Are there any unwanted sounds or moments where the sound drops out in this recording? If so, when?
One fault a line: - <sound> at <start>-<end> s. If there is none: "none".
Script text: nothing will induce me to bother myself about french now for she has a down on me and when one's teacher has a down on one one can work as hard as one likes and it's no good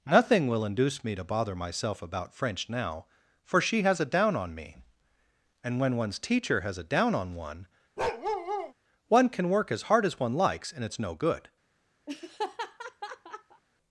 - bark at 8.0-8.7 s
- laugh at 12.1-13.6 s